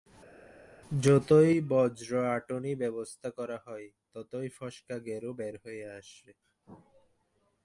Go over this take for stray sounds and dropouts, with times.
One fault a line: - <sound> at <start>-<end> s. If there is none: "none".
none